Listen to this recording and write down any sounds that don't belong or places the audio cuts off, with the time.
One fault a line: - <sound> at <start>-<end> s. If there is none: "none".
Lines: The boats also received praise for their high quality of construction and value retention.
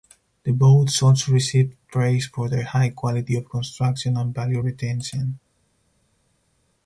none